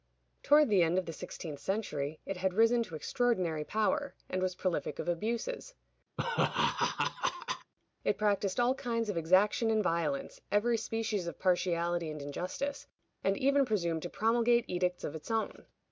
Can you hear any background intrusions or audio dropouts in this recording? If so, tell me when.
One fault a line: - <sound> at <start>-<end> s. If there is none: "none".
- laugh at 6.2-7.7 s